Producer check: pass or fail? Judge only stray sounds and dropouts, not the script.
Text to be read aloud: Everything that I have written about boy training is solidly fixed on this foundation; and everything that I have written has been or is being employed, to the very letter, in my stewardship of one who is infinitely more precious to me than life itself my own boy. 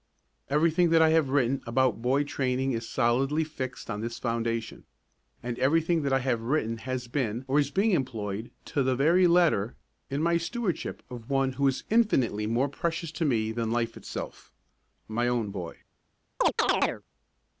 fail